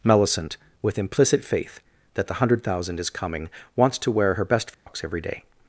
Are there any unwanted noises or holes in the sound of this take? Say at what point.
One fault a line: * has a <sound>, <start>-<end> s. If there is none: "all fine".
* has a dropout, 4.7-4.9 s